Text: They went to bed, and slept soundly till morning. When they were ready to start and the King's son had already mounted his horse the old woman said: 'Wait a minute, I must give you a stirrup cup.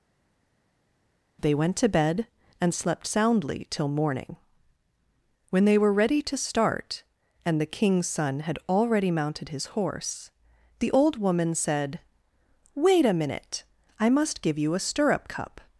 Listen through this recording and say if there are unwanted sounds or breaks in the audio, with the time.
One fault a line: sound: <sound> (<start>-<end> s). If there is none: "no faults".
no faults